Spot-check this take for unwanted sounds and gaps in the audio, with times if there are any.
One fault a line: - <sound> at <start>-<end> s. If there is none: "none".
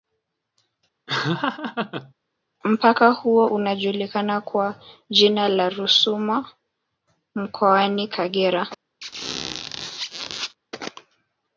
- laugh at 1.1-2.1 s
- squeak at 9.0-10.6 s